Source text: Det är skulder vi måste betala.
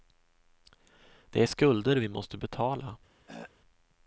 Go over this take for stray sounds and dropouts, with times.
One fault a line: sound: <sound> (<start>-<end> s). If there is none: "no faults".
sound: throat clearing (3.3-3.5 s)